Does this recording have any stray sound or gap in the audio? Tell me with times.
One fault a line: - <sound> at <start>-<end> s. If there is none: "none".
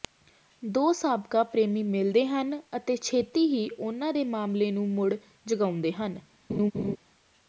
- laugh at 6.5-7.0 s